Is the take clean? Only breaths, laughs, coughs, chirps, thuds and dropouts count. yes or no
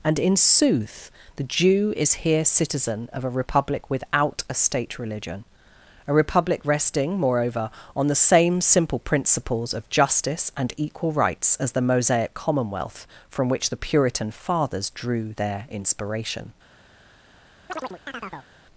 no